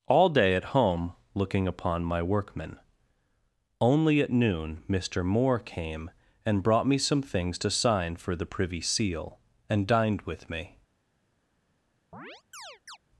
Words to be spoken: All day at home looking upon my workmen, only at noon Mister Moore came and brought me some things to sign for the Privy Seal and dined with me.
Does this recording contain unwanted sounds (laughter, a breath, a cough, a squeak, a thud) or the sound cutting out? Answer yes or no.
yes